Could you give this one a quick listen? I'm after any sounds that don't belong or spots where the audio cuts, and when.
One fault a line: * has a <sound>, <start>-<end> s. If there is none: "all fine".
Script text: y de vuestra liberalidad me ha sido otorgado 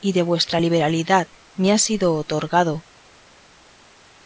all fine